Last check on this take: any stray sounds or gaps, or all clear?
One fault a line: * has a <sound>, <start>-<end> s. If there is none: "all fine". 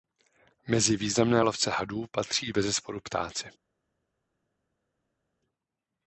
all fine